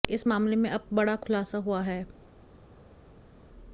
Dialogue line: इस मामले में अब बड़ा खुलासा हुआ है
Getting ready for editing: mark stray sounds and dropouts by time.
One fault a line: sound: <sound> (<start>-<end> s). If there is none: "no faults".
no faults